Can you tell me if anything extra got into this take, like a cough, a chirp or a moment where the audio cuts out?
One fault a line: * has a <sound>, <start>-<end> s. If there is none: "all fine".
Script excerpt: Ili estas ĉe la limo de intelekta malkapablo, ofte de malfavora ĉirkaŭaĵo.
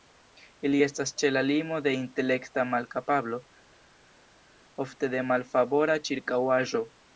all fine